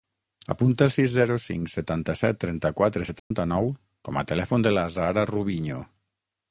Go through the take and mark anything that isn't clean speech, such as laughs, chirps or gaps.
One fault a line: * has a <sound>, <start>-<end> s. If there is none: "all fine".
* has a dropout, 3.2-3.3 s